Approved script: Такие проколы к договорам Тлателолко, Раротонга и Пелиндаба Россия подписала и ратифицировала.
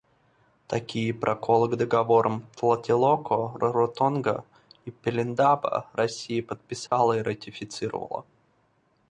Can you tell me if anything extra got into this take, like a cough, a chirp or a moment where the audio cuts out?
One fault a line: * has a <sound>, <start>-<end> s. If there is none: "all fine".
* has a dropout, 6.9-6.9 s